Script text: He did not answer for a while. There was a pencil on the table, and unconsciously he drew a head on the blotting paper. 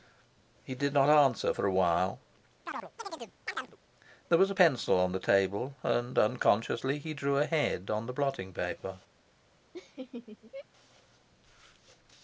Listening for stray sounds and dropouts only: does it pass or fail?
fail